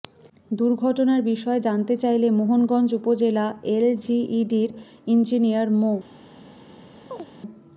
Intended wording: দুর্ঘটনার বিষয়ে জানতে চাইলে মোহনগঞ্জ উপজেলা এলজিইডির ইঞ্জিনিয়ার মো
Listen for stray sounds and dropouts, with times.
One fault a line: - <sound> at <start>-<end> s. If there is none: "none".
- chirp at 7.1-7.3 s